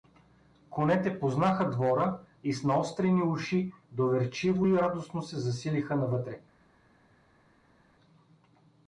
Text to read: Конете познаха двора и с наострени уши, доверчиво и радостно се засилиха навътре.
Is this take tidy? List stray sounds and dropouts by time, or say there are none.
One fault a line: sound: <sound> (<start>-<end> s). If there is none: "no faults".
no faults